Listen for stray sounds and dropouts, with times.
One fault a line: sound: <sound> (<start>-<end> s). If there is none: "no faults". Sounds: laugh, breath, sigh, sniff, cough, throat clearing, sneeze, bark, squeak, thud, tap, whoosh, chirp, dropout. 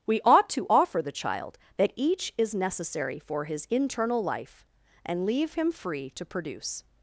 no faults